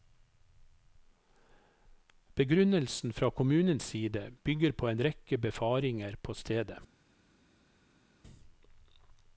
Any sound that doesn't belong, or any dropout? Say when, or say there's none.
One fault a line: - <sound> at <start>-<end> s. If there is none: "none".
none